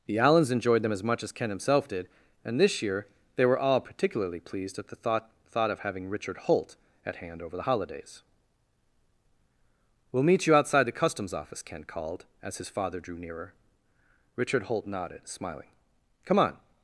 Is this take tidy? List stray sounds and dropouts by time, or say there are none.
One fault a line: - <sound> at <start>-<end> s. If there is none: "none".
none